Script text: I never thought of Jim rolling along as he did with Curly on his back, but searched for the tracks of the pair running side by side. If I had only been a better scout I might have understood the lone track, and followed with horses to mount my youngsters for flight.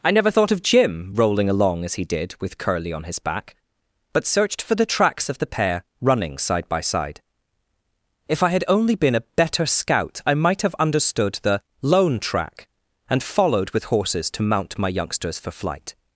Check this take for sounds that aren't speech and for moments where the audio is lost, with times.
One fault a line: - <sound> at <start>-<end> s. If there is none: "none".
none